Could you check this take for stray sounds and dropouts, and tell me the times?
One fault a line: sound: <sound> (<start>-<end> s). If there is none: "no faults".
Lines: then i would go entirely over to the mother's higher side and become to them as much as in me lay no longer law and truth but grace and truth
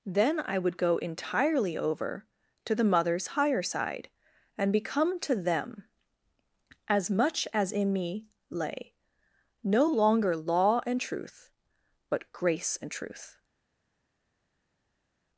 no faults